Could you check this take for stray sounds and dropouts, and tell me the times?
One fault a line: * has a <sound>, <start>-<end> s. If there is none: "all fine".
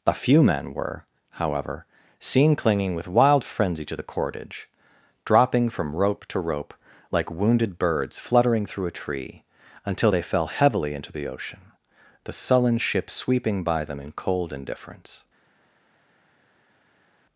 all fine